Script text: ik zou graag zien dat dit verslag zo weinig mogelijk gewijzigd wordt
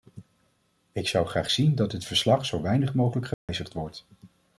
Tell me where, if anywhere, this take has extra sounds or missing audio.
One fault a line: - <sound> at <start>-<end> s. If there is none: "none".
- dropout at 3.3-3.5 s